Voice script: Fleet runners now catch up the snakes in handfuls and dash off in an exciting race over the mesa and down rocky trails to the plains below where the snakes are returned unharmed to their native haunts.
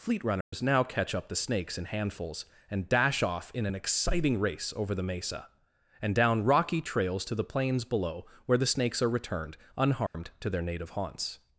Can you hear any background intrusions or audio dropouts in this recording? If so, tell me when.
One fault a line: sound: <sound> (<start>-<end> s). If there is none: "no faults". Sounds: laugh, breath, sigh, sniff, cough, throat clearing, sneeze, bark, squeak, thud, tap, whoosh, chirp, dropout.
sound: dropout (0.4-0.5 s)
sound: dropout (10.1-10.1 s)